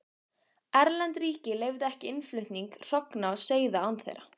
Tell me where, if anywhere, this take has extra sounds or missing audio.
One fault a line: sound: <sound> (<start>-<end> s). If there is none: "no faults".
no faults